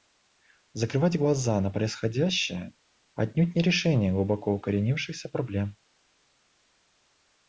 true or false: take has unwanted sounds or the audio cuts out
false